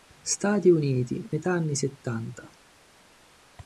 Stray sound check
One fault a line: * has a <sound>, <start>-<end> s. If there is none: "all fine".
all fine